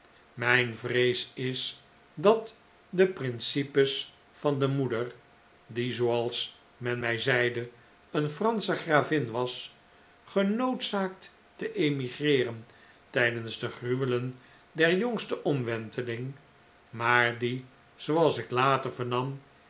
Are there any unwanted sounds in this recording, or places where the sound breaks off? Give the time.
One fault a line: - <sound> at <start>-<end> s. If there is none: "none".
none